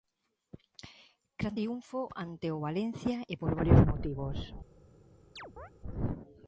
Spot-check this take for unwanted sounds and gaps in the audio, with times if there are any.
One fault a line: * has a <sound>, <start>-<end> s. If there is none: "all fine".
* has a chirp, 5.4-5.7 s